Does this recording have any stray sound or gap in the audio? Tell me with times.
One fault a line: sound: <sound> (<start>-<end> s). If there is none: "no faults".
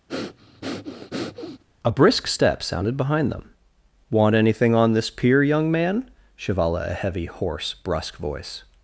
sound: breath (0.1-1.6 s)